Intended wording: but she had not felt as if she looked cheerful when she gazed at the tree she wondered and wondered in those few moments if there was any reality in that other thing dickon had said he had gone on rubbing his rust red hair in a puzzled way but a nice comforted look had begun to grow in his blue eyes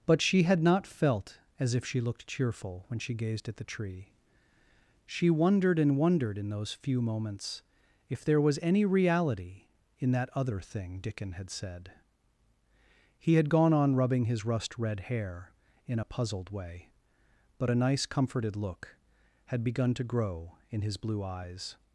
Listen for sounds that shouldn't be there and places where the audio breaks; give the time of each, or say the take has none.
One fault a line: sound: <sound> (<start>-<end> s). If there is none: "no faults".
no faults